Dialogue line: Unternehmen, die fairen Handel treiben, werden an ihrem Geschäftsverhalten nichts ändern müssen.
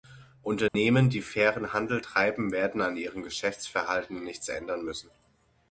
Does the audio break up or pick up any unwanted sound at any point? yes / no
yes